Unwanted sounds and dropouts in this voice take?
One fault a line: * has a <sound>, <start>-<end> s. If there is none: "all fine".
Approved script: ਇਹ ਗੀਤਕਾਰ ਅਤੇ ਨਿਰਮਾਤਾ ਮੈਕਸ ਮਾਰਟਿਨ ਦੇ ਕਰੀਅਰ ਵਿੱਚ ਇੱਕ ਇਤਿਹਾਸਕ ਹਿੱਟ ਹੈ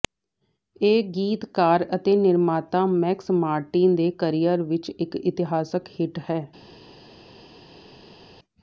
all fine